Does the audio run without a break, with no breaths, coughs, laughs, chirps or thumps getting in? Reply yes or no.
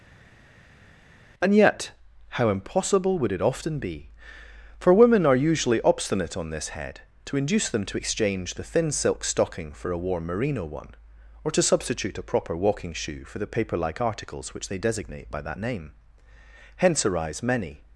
yes